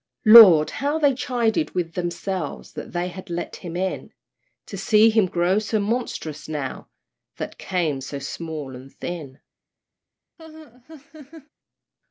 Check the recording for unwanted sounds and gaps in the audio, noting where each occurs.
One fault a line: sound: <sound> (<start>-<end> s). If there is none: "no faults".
sound: laugh (10.4-11.5 s)